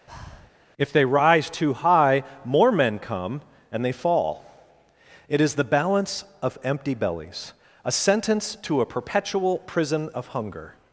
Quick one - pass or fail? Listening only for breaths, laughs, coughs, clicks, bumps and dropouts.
fail